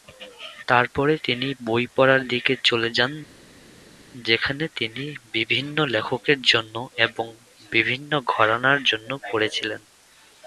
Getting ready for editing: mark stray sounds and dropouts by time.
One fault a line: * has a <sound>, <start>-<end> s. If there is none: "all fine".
all fine